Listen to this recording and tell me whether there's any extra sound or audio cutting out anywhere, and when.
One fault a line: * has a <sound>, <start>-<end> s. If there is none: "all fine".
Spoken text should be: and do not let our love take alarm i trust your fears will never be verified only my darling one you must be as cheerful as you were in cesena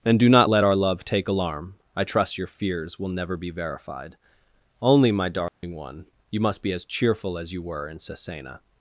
* has a dropout, 5.5-5.6 s